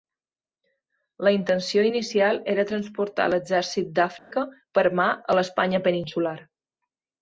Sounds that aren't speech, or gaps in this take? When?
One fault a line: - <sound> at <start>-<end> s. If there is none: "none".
- dropout at 4.2-4.3 s